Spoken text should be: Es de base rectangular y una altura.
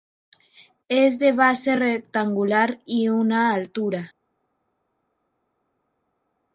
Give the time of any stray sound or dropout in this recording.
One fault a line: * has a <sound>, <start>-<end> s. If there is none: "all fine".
all fine